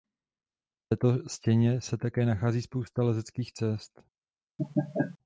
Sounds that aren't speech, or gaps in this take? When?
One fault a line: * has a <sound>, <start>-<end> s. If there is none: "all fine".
* has a laugh, 4.6-5.2 s